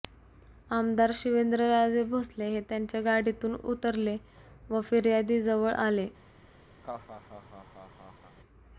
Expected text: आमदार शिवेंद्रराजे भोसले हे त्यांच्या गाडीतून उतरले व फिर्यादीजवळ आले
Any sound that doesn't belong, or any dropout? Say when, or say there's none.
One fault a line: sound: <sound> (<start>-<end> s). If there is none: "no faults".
sound: laugh (6.8-8.4 s)